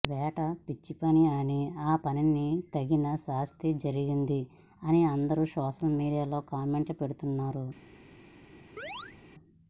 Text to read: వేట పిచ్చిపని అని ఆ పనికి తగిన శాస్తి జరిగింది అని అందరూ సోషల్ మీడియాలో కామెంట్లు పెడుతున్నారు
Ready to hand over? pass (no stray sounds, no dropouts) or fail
fail